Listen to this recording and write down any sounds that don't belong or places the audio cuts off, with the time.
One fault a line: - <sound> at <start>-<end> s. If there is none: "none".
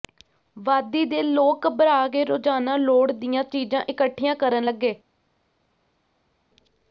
none